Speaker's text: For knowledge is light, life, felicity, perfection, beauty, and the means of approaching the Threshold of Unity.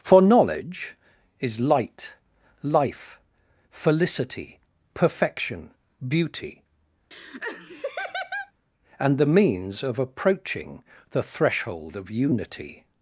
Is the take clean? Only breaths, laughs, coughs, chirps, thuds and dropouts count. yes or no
no